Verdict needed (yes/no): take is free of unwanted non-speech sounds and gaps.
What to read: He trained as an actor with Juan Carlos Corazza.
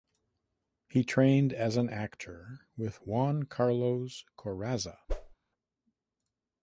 no